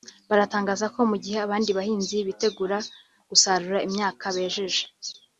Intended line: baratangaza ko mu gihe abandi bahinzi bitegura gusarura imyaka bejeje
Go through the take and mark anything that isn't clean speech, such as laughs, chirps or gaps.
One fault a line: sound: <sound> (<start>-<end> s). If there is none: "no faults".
no faults